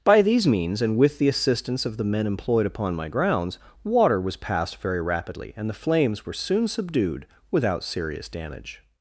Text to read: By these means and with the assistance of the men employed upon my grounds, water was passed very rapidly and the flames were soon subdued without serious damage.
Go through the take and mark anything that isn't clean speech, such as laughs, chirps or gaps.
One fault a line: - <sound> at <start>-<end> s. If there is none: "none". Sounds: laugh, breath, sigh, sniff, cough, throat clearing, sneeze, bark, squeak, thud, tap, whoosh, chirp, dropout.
none